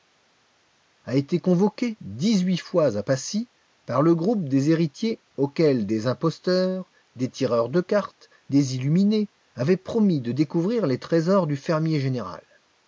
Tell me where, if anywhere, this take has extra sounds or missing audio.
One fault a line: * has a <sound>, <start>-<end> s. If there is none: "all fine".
all fine